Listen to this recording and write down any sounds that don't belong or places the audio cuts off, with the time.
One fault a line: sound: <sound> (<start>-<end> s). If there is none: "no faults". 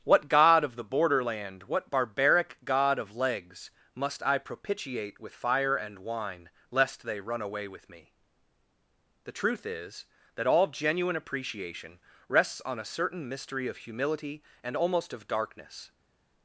no faults